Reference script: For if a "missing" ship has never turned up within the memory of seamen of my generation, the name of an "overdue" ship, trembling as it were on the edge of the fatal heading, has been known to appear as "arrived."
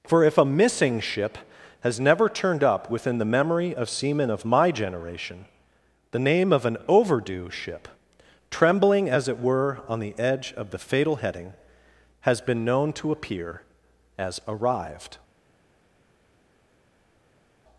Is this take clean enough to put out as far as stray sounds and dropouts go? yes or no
yes